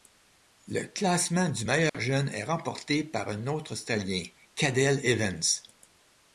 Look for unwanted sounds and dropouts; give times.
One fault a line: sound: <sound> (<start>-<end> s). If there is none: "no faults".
sound: dropout (1.9-1.9 s)